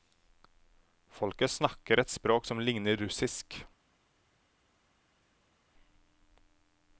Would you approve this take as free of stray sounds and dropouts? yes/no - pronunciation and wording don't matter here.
yes